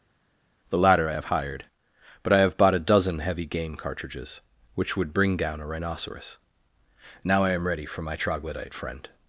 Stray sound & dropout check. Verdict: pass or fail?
pass